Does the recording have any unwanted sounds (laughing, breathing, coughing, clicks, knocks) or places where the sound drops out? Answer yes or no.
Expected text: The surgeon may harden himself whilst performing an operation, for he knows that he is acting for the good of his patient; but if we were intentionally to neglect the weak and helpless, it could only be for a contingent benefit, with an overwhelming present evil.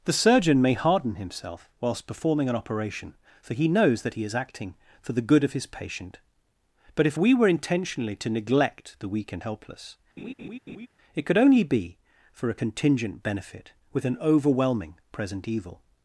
yes